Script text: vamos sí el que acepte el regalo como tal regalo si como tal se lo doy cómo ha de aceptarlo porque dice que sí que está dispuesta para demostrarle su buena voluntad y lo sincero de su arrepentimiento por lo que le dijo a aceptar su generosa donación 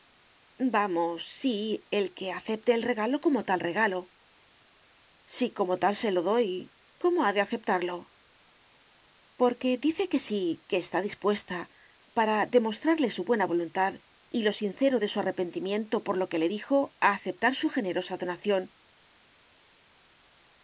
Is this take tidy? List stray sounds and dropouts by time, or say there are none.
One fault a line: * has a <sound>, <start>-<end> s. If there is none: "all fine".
all fine